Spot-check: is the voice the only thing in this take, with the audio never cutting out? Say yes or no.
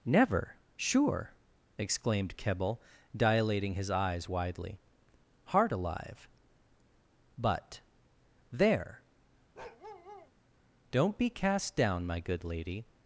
no